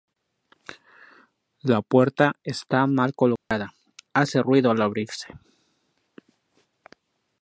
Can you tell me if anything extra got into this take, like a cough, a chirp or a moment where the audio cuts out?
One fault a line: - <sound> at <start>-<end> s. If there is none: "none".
- dropout at 3.4-3.5 s